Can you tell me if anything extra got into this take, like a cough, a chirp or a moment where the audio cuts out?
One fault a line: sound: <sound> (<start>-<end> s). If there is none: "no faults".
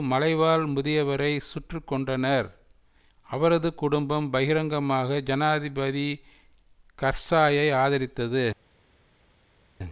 no faults